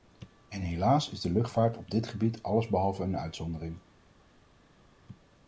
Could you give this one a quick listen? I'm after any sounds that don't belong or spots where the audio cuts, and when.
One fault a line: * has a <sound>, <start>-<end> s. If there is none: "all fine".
all fine